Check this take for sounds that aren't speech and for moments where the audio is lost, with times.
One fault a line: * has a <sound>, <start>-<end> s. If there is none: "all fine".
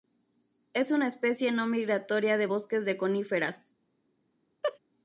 * has a laugh, 4.6-4.8 s